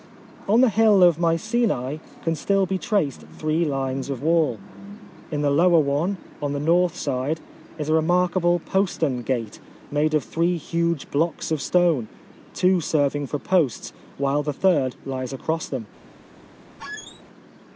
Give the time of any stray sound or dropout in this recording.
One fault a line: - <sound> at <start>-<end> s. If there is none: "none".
- squeak at 16.8-17.2 s